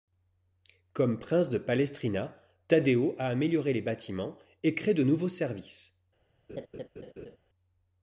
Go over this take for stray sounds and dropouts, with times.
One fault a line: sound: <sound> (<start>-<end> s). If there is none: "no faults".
sound: laugh (6.5-7.4 s)